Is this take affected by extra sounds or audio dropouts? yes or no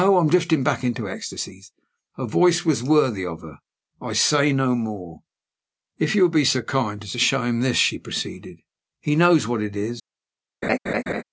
yes